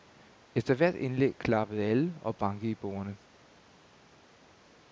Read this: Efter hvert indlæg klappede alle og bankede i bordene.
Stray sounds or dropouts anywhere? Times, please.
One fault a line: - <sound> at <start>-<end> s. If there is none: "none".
none